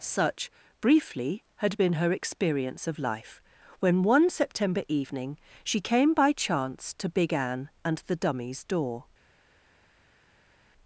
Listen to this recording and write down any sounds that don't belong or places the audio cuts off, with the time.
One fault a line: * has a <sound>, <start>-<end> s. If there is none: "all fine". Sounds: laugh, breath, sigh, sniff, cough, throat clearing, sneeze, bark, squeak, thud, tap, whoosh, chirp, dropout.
all fine